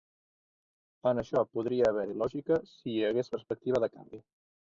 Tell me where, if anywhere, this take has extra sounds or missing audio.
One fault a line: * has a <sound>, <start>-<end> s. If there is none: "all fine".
all fine